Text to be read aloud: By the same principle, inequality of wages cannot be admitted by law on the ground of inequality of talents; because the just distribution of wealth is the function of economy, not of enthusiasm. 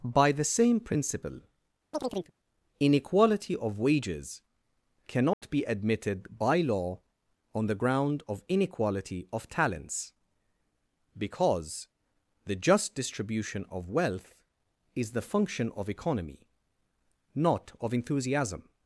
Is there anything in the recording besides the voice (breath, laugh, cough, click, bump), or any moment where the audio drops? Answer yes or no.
yes